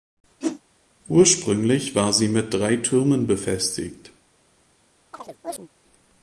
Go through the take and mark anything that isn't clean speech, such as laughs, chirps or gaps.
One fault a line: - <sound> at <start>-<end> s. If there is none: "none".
- whoosh at 0.4-0.6 s
- chirp at 5.1-5.7 s